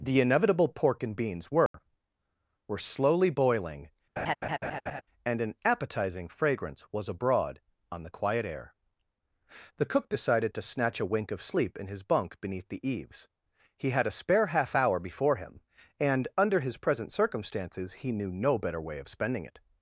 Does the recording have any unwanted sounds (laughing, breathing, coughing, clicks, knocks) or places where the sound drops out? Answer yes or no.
yes